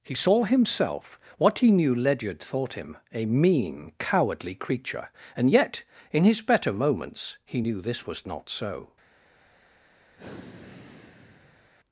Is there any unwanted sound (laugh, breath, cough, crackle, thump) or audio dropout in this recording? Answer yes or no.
yes